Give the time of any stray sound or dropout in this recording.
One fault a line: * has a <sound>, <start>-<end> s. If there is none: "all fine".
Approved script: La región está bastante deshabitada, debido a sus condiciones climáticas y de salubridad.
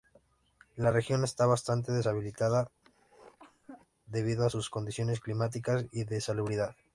* has a cough, 2.8-3.9 s